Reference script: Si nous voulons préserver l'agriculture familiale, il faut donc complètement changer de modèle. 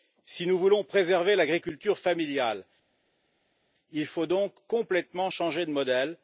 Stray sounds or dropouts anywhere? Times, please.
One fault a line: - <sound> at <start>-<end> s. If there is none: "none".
none